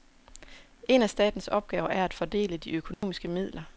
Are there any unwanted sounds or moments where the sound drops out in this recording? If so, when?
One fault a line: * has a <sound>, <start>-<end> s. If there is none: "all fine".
* has a dropout, 2.9-3.0 s